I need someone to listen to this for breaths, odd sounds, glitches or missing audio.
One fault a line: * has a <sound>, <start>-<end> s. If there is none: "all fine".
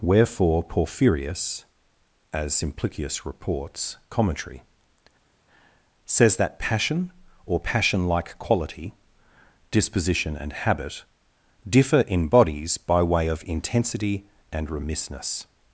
all fine